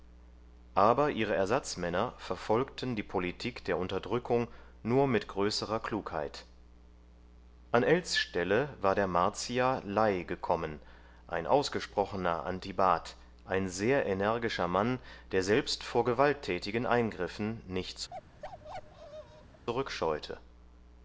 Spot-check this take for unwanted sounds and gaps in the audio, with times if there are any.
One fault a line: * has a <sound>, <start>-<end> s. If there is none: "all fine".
* has a bark, 18.1-19.7 s